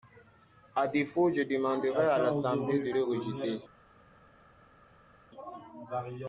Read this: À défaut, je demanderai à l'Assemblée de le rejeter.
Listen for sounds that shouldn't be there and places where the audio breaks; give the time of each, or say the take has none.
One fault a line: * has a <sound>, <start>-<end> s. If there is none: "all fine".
all fine